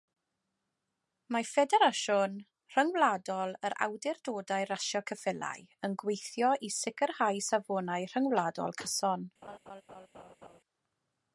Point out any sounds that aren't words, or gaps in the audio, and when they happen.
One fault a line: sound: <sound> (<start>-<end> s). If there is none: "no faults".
sound: laugh (9.4-10.6 s)